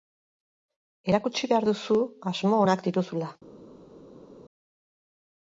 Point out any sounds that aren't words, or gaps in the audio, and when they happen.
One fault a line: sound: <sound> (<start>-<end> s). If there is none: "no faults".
no faults